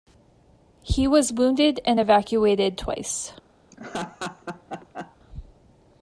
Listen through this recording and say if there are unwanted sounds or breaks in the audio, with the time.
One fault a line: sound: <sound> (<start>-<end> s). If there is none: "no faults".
sound: laugh (3.7-5.2 s)